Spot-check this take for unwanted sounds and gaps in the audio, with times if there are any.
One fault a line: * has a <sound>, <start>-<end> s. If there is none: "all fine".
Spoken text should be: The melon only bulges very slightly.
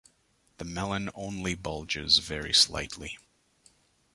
all fine